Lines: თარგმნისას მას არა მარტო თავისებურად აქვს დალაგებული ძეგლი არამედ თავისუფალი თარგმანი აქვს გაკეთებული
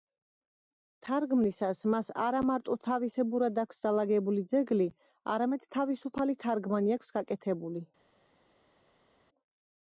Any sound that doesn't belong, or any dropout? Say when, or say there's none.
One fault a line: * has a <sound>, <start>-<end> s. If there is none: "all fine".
all fine